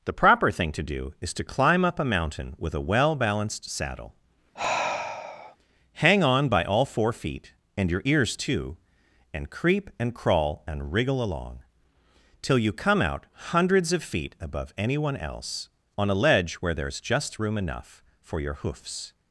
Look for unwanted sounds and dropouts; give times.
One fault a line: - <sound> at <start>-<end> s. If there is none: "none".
- sigh at 4.5-5.6 s